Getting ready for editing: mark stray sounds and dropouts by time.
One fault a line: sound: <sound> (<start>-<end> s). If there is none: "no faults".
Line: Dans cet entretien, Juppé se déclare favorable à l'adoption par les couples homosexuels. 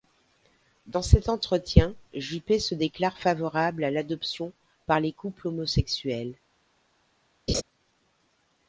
sound: laugh (7.5-7.6 s)